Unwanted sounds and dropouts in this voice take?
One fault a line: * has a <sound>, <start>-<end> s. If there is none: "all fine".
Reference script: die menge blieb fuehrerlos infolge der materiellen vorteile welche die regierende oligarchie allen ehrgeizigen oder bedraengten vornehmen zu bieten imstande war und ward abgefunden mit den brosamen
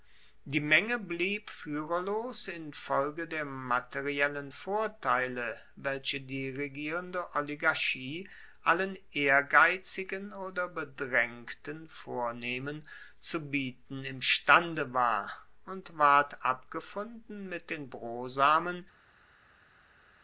all fine